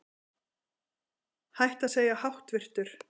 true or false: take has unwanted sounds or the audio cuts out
false